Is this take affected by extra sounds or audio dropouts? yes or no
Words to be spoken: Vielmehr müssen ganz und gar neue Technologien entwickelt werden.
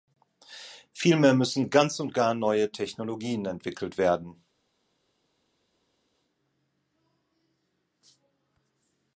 no